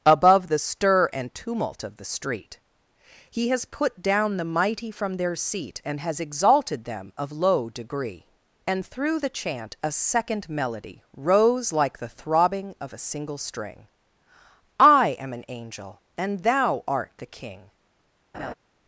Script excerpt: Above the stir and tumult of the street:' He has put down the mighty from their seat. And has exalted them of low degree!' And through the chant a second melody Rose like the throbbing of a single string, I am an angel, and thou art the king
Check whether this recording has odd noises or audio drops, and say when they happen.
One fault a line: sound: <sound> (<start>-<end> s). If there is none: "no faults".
sound: laugh (18.3-18.5 s)